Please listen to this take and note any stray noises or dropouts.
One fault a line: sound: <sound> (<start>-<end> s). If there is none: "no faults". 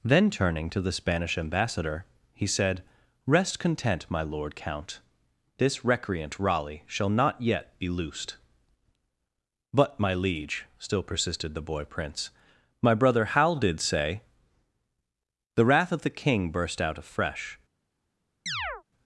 sound: chirp (18.5-18.8 s)